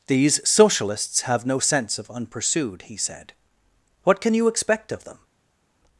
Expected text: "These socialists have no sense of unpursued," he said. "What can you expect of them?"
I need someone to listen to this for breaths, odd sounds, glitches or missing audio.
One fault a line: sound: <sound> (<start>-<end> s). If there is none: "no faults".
no faults